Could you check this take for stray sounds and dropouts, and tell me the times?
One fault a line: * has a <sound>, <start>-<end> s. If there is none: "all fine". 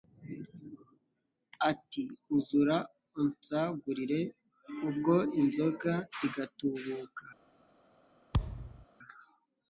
* has a thud, 8.3-8.9 s